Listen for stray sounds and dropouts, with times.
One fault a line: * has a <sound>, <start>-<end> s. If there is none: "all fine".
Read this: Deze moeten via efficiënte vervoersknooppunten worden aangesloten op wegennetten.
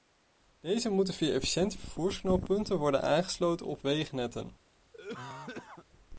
* has a cough, 4.9-5.9 s